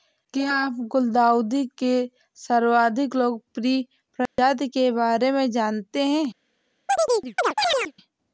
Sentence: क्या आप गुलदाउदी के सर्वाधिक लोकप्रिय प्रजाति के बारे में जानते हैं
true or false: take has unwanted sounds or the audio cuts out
true